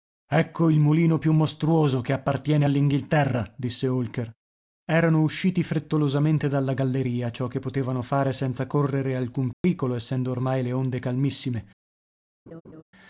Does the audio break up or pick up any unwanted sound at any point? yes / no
yes